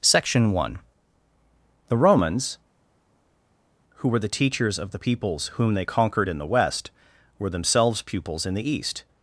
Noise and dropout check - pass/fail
pass